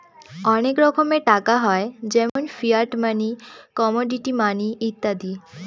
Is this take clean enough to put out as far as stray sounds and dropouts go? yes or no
no